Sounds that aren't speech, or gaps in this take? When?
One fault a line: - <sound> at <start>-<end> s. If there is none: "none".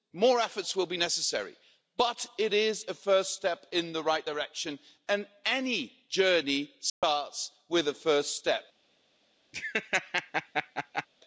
- dropout at 6.9-7.0 s
- laugh at 9.5-11.1 s